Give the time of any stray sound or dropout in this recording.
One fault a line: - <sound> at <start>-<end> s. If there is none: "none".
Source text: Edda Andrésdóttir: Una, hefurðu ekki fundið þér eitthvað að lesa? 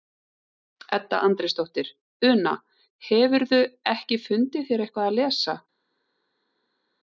none